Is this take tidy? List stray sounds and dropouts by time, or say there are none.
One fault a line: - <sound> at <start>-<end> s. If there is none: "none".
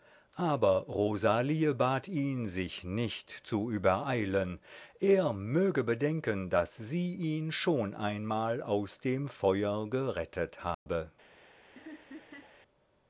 - dropout at 10.7-10.9 s
- laugh at 11.8-12.6 s